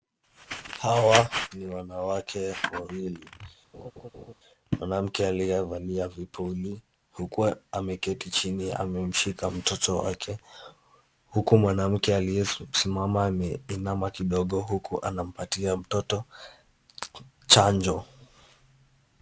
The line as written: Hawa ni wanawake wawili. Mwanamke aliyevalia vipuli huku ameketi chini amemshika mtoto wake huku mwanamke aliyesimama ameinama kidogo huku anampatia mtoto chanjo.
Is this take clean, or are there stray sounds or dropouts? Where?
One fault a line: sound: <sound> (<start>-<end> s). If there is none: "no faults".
sound: laugh (3.7-4.3 s)